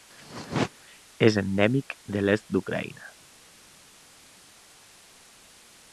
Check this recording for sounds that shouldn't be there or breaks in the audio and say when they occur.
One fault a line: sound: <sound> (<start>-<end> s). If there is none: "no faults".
no faults